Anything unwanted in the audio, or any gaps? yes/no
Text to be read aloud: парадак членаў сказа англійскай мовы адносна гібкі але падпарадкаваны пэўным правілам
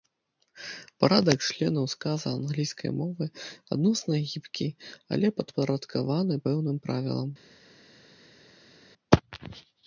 no